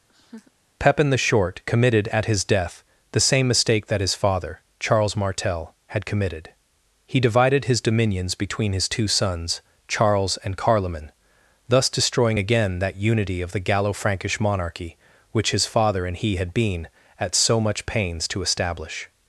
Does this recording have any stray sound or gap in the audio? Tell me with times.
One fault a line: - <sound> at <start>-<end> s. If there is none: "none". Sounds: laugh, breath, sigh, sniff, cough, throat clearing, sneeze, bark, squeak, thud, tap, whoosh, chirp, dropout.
- laugh at 0.1-0.5 s